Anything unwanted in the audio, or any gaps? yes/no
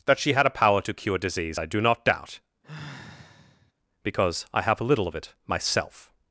yes